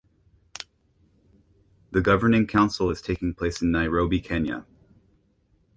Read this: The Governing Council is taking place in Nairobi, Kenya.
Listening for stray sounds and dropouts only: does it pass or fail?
pass